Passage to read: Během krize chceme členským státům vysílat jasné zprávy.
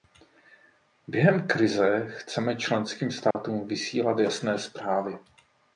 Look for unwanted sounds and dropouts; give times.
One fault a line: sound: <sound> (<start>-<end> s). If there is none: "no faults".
sound: dropout (3.3-3.4 s)